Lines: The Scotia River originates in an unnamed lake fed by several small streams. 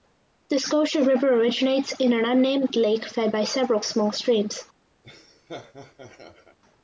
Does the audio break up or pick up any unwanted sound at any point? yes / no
yes